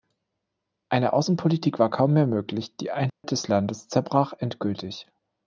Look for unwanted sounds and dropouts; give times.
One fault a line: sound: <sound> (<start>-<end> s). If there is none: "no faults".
sound: dropout (3.1-3.2 s)